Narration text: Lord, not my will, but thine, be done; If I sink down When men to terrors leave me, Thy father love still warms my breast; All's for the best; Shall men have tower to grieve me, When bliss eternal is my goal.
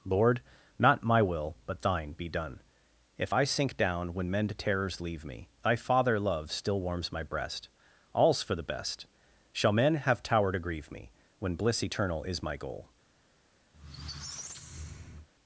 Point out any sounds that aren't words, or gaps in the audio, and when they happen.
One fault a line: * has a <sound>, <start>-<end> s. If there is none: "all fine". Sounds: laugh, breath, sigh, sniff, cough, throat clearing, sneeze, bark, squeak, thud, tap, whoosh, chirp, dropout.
* has a squeak, 13.7-15.3 s